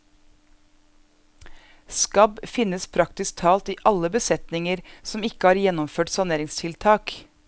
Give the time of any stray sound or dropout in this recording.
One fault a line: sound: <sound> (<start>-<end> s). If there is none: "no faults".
no faults